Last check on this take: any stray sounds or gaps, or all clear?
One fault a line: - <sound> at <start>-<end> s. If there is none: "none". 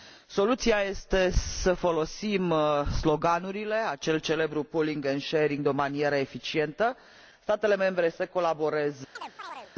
- chirp at 9.2-9.7 s